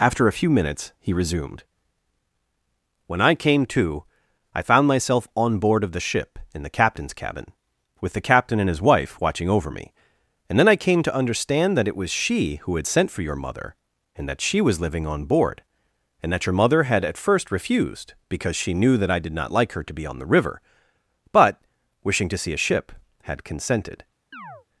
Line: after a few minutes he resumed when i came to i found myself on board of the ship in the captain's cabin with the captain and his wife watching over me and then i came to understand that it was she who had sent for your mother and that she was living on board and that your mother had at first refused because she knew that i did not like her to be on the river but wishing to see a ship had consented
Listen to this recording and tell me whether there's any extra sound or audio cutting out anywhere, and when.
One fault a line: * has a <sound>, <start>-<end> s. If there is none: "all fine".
* has a chirp, 24.3-24.7 s